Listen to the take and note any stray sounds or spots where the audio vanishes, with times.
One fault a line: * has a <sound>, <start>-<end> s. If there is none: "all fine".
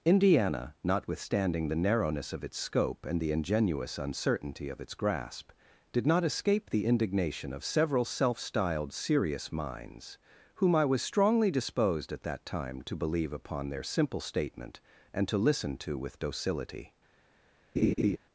* has a laugh, 17.8-18.2 s